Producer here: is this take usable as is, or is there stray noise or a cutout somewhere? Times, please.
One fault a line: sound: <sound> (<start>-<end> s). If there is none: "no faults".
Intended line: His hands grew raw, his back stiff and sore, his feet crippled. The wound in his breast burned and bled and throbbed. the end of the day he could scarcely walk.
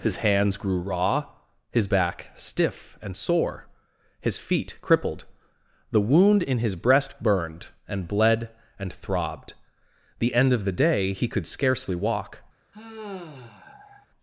sound: sigh (12.7-14.1 s)